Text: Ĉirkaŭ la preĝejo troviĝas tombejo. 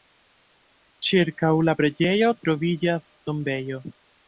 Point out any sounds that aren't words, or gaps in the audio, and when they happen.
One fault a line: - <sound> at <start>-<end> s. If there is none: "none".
none